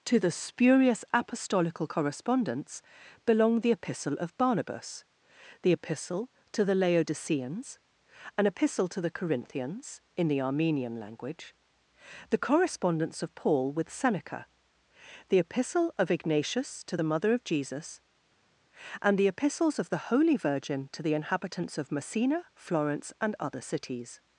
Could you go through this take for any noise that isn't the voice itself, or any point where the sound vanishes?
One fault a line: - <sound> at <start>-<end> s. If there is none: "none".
none